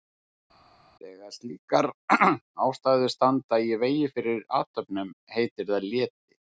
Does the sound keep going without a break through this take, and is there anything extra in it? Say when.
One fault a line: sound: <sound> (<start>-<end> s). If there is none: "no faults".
no faults